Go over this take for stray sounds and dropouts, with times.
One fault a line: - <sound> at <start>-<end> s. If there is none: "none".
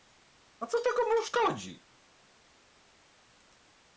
none